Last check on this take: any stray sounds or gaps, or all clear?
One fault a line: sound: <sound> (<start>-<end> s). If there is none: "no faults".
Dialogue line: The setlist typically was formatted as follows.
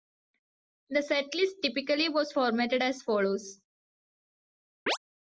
sound: chirp (4.9-5.0 s)